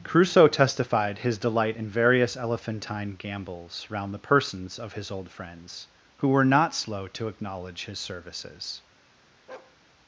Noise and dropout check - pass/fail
fail